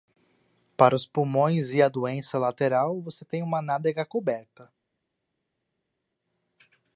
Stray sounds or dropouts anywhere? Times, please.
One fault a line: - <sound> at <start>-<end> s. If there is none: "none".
none